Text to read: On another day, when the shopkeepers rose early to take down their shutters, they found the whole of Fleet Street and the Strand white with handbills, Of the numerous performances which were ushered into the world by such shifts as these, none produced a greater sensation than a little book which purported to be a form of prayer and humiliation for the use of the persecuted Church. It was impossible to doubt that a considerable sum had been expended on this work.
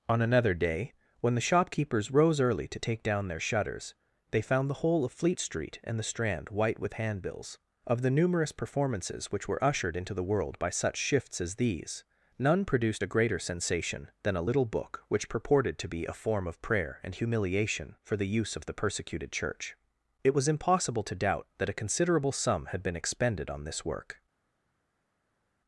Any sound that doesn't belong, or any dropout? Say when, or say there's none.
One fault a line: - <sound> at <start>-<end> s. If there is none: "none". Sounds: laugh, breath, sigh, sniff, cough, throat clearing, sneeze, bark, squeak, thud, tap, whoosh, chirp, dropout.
none